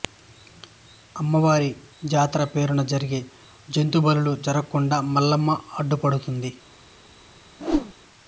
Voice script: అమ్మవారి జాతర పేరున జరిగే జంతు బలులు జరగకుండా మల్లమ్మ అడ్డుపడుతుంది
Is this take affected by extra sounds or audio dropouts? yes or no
yes